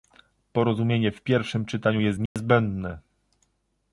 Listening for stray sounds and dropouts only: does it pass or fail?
fail